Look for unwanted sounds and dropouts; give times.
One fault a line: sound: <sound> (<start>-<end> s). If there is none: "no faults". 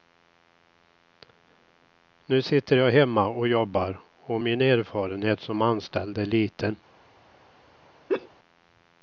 sound: laugh (8.1-8.3 s)